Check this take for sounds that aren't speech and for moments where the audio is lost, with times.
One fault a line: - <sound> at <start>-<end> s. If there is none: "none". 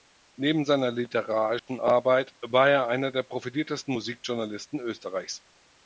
- dropout at 1.6-1.7 s